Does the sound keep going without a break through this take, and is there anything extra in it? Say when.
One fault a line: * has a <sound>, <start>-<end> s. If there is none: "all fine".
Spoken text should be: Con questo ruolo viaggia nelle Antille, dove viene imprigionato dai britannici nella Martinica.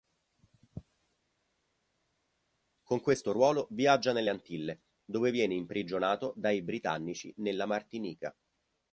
all fine